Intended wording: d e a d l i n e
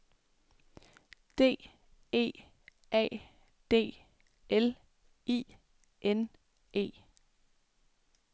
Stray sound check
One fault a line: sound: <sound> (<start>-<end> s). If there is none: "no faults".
no faults